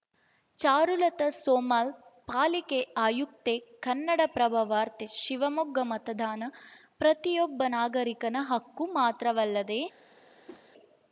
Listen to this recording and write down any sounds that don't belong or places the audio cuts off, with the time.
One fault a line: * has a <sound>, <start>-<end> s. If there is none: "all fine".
* has a whoosh, 10.5-10.6 s